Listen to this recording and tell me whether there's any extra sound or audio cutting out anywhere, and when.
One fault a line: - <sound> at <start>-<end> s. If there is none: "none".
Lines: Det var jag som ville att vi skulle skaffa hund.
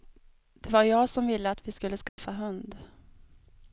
- dropout at 2.1-2.2 s